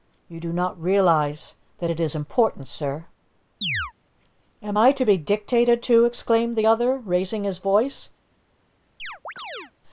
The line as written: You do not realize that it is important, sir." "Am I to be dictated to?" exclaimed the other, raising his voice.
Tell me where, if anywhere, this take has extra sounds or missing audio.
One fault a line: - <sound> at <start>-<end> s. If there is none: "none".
- chirp at 3.6-3.9 s
- chirp at 9.0-9.7 s